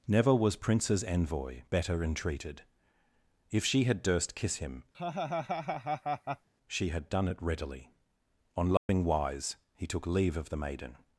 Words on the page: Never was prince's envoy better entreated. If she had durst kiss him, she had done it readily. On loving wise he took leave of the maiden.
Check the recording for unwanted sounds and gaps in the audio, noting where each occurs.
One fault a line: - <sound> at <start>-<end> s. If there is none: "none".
- laugh at 4.9-6.5 s
- dropout at 8.8-8.9 s